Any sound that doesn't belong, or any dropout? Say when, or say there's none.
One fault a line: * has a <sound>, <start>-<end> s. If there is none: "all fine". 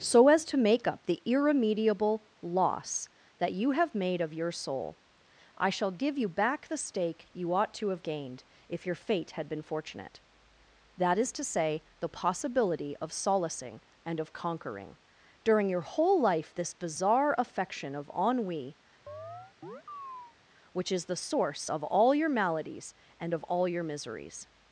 * has a chirp, 19.1-20.4 s